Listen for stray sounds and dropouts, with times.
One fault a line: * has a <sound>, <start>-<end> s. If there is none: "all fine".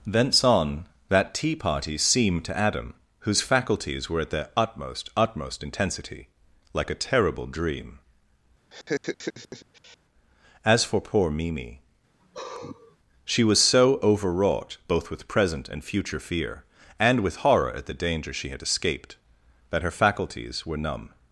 * has a laugh, 8.7-10.0 s
* has a sigh, 12.2-13.0 s